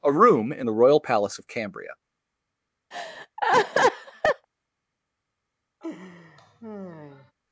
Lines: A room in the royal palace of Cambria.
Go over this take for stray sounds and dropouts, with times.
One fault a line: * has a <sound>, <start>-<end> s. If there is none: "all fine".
* has a laugh, 2.9-4.5 s
* has a laugh, 5.8-7.3 s